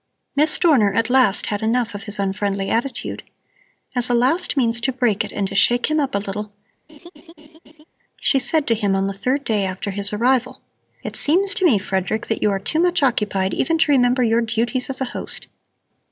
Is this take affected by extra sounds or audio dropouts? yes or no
yes